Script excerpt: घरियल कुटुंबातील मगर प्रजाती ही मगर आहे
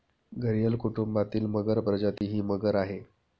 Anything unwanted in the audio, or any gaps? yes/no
yes